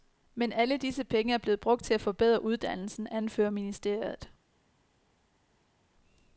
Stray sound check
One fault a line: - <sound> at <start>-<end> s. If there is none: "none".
none